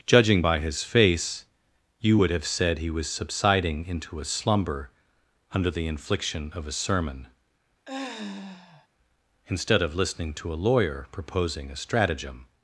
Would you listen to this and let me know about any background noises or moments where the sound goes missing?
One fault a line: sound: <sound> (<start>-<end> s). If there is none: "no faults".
sound: sigh (7.9-8.9 s)